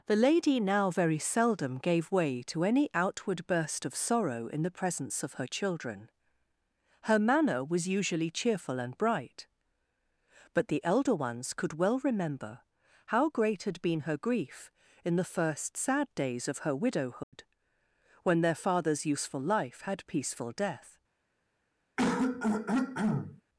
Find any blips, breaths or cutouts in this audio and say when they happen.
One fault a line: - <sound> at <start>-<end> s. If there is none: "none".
- dropout at 17.2-17.3 s
- throat clearing at 22.0-23.4 s